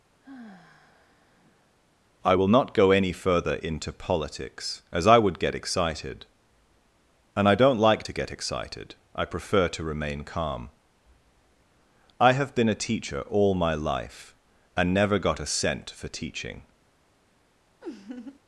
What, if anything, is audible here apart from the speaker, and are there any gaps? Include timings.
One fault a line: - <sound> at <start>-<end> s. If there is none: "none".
- sigh at 0.2-1.7 s
- laugh at 17.8-18.4 s